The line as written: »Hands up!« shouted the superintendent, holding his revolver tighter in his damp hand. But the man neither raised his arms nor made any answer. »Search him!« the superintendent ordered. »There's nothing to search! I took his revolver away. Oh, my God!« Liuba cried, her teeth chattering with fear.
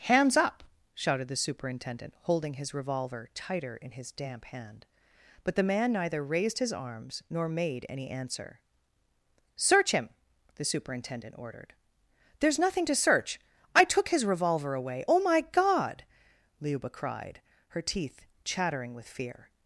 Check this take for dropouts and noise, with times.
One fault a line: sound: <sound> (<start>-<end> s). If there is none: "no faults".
no faults